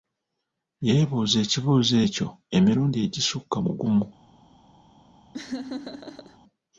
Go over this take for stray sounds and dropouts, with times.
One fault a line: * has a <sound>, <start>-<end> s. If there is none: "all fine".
* has a laugh, 5.3-6.4 s